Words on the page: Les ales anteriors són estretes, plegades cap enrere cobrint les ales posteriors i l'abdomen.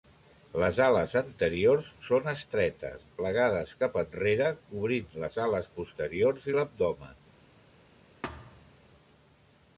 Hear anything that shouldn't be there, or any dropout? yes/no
yes